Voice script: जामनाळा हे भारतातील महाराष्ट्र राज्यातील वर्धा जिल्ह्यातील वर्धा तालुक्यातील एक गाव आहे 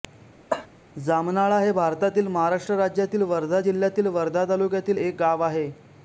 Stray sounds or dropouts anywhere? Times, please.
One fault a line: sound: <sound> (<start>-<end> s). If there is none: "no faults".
sound: cough (0.5-0.7 s)